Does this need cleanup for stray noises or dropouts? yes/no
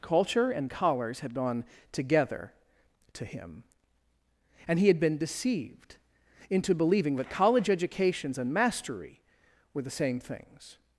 no